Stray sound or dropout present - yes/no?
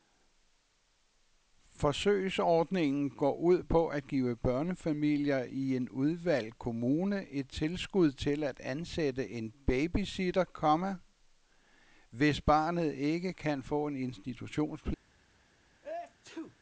yes